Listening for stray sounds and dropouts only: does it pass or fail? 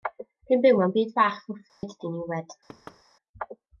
fail